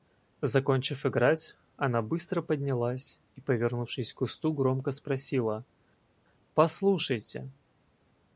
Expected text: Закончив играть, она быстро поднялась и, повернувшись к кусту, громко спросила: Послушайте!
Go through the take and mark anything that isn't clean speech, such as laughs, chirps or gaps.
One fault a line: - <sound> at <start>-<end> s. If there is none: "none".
none